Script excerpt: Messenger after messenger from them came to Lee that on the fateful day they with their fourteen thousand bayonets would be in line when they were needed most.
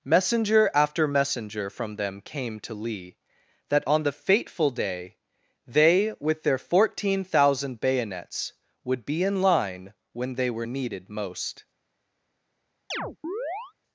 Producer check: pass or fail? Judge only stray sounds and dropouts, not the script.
fail